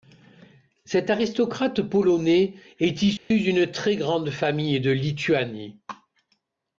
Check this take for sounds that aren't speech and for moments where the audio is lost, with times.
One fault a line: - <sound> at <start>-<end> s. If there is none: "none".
- dropout at 3.2-3.3 s